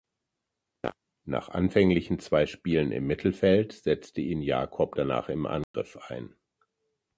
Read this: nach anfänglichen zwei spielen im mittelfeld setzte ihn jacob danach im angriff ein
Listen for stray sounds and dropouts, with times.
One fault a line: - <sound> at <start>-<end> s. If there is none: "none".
- dropout at 5.6-5.7 s